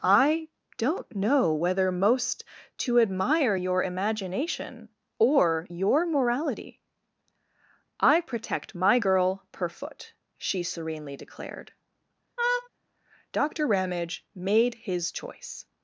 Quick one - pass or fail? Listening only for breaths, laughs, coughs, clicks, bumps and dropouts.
fail